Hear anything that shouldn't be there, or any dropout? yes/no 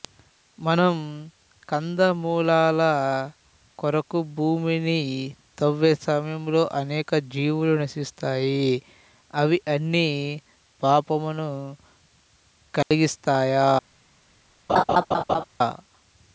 yes